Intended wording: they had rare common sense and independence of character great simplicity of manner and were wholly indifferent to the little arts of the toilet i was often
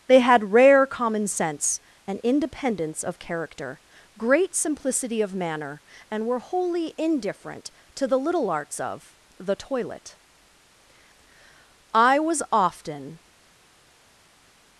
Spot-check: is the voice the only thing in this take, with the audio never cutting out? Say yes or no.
yes